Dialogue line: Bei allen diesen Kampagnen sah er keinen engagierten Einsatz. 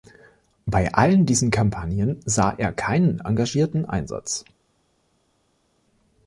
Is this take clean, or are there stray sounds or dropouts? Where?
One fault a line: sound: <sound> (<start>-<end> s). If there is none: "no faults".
no faults